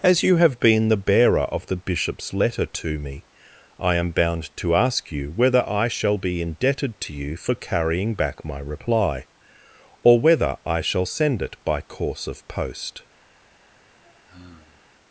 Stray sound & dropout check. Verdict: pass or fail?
fail